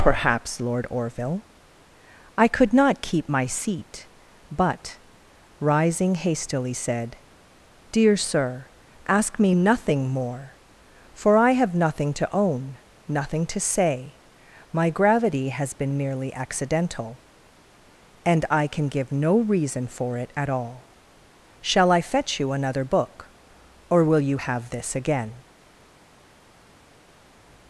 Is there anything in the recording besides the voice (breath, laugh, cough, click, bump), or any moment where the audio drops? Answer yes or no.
no